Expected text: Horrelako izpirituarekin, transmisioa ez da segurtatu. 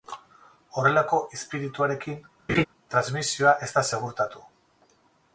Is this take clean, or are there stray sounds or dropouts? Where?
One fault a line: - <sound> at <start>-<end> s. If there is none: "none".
- laugh at 2.5-2.6 s